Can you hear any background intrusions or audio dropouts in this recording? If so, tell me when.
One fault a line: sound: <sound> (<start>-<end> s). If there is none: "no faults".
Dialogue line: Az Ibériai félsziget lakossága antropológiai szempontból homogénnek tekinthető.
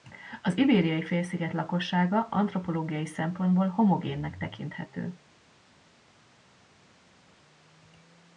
no faults